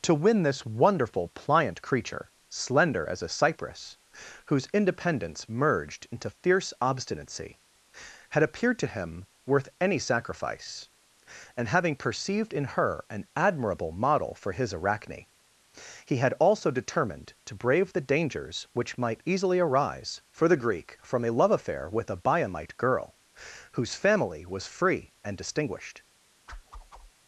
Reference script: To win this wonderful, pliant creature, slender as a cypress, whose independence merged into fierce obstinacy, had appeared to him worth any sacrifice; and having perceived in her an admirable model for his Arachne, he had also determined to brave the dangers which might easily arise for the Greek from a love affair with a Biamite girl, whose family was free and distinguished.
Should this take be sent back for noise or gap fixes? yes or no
yes